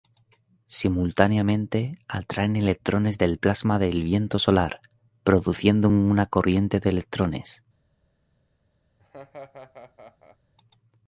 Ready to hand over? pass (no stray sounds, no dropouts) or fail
fail